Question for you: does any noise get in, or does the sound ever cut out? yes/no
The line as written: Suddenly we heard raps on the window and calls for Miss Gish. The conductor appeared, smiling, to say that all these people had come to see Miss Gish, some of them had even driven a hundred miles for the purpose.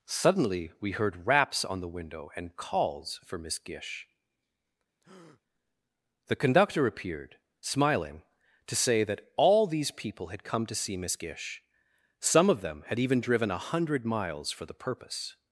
yes